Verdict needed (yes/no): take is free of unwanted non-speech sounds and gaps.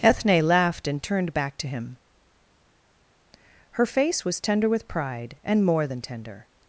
yes